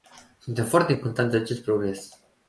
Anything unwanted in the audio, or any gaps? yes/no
no